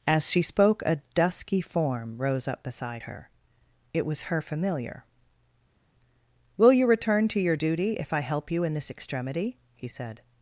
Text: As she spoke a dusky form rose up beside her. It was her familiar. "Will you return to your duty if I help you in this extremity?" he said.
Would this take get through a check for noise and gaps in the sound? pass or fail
pass